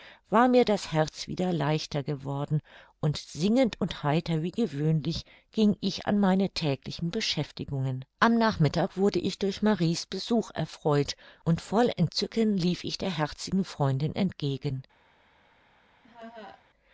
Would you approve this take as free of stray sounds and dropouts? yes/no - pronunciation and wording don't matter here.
no